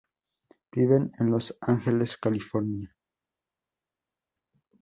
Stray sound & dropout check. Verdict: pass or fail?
pass